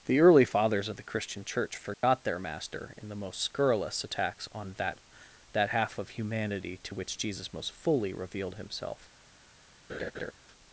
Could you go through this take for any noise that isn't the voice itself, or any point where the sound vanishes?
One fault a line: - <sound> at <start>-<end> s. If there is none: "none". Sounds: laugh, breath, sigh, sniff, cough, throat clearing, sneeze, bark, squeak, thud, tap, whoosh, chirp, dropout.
- dropout at 1.9-2.0 s
- laugh at 9.9-10.3 s